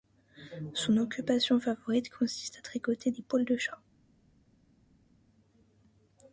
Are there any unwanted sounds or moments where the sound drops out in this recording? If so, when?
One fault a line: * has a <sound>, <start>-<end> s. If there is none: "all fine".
all fine